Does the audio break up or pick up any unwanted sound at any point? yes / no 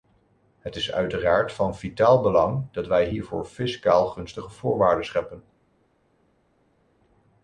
no